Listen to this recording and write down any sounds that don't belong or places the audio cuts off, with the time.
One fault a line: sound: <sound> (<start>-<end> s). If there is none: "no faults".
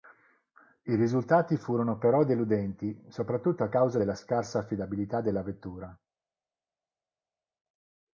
no faults